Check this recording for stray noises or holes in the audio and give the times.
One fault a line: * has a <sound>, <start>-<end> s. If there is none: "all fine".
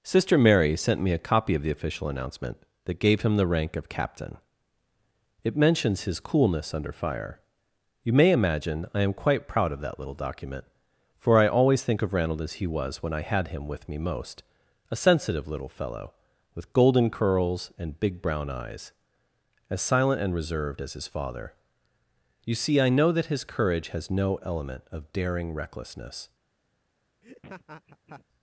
* has a laugh, 27.2-28.2 s